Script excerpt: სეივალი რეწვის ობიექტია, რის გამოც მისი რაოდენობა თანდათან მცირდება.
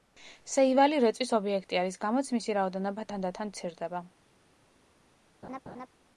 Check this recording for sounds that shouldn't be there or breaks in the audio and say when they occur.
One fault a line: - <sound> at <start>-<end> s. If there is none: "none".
- laugh at 5.4-5.9 s